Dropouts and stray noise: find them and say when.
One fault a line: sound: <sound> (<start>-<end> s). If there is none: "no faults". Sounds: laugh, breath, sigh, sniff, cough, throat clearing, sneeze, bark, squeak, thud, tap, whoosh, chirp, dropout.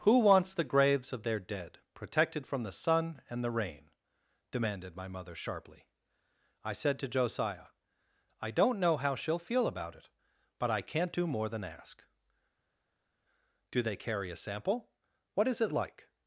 no faults